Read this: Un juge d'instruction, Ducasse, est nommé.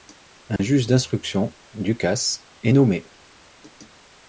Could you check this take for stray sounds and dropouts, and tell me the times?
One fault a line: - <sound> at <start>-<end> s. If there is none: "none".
- dropout at 0.6-0.6 s